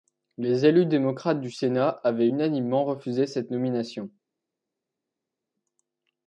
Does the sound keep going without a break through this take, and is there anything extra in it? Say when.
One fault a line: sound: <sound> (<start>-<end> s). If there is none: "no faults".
no faults